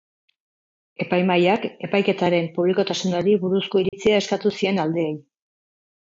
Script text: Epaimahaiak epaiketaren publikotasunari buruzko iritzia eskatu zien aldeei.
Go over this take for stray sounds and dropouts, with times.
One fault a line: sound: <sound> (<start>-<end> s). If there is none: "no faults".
sound: dropout (3.9-3.9 s)